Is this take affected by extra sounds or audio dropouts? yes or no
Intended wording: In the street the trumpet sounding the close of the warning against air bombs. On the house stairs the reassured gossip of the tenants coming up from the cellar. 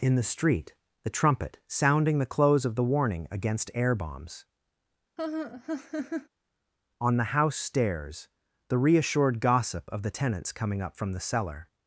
yes